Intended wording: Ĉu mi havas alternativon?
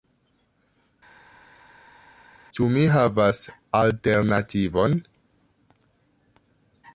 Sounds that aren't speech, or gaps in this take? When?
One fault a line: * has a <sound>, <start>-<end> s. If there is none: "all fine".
all fine